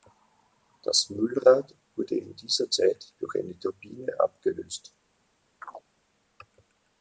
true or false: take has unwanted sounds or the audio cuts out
true